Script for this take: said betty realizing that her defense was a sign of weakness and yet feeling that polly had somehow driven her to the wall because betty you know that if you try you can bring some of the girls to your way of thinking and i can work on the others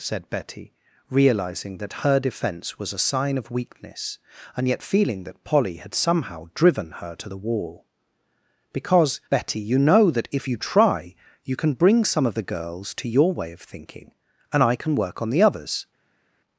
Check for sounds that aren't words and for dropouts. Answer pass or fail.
pass